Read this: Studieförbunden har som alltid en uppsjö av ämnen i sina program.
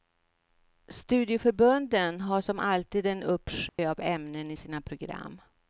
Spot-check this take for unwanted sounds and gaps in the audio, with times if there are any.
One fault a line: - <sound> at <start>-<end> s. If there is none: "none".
- dropout at 3.7-3.8 s